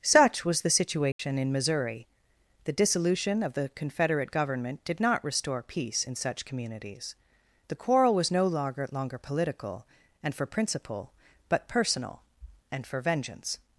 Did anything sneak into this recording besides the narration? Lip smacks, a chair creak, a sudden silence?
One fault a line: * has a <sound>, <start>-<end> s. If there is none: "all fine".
* has a dropout, 1.1-1.2 s